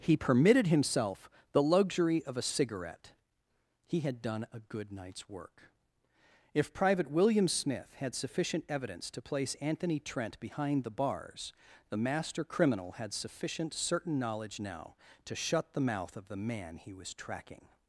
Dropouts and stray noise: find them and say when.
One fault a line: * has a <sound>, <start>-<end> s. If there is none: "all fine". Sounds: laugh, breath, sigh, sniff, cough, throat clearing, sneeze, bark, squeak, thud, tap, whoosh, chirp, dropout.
all fine